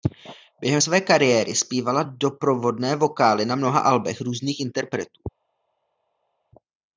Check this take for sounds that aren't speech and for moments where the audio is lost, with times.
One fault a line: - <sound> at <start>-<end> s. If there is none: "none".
none